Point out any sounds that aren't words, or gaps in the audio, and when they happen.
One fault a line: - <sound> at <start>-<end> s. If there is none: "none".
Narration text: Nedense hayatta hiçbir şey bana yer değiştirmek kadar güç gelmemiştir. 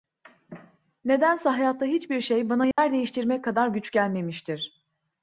- dropout at 2.7-2.8 s